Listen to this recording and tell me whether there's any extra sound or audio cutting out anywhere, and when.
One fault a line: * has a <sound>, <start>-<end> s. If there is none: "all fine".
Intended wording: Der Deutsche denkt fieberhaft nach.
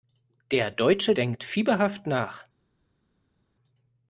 all fine